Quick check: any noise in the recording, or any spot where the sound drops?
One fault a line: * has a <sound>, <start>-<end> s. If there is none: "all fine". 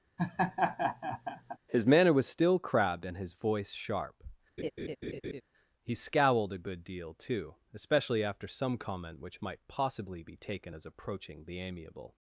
* has a laugh, 0.2-1.6 s
* has a laugh, 4.6-5.4 s